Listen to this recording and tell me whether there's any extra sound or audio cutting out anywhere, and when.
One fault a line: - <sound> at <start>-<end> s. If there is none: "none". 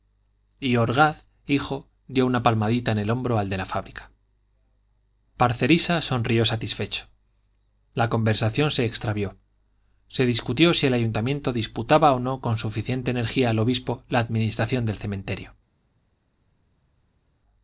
none